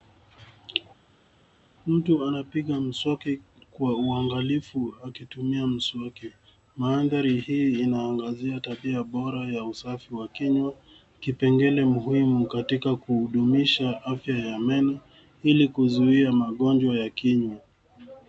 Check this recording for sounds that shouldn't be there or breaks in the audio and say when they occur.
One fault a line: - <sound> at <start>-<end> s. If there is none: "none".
none